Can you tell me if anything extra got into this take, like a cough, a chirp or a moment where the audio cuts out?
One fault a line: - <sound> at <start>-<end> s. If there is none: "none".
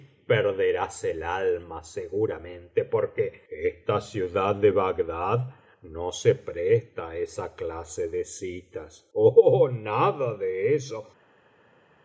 none